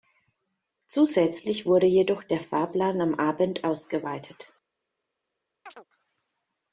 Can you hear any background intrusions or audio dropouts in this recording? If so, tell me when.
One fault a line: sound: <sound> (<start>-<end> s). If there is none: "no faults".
sound: chirp (5.7-5.9 s)